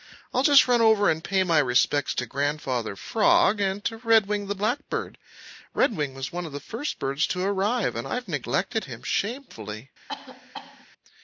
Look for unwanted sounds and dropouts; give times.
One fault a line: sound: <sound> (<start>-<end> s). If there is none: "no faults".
sound: cough (10.1-10.9 s)